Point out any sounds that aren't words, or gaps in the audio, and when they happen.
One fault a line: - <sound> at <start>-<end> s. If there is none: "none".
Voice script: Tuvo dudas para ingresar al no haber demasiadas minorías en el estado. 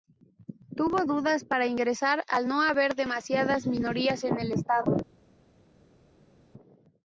none